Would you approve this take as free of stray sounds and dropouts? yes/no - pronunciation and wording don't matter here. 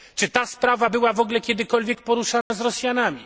no